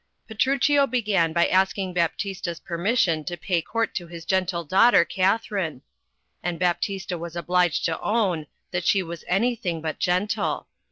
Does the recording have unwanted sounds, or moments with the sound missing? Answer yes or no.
no